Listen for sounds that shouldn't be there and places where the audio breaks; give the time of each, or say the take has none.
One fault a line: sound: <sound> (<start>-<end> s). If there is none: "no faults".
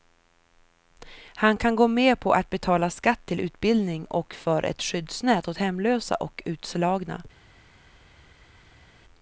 no faults